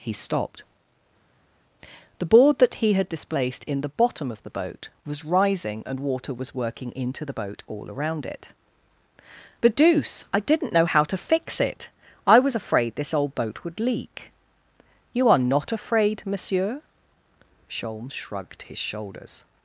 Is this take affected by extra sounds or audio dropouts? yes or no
no